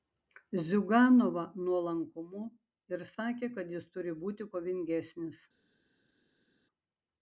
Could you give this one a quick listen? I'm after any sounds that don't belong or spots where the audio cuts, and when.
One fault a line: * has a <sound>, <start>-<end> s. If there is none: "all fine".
all fine